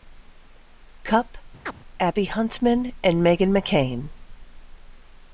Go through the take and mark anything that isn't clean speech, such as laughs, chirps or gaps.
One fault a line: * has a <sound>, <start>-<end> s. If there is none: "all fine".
* has a chirp, 1.6-1.7 s